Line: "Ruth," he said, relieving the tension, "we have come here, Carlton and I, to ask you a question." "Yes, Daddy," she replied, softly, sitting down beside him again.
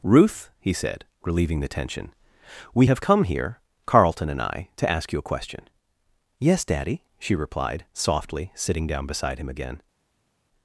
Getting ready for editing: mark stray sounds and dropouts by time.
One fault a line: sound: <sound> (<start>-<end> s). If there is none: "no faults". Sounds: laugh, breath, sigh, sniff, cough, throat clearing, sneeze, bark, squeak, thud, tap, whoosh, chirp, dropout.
no faults